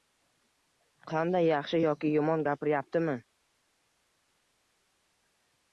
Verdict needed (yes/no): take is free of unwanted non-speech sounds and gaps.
yes